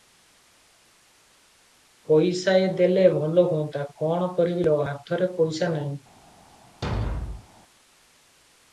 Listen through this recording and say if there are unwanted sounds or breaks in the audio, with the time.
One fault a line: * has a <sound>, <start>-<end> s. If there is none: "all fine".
* has a thud, 6.8-7.5 s